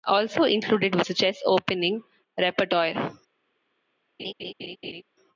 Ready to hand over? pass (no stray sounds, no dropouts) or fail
fail